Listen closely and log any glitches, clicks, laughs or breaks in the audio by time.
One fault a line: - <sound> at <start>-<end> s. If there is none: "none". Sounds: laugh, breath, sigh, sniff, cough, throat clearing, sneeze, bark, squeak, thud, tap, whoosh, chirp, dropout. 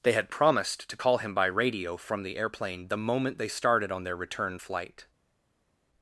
none